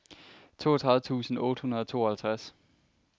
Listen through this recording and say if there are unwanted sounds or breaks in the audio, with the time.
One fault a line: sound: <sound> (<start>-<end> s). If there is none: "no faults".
no faults